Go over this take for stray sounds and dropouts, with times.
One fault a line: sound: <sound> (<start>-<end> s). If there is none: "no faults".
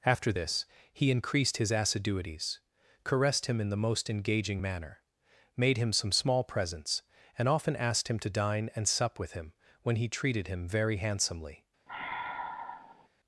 sound: sigh (11.9-13.1 s)